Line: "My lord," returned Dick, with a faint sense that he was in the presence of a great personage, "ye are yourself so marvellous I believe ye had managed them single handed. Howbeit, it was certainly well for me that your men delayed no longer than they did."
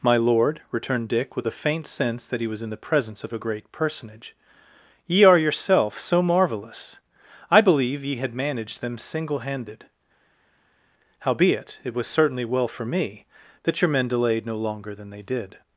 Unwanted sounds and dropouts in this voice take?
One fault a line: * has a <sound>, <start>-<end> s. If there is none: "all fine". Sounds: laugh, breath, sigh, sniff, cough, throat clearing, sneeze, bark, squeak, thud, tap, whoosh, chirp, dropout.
all fine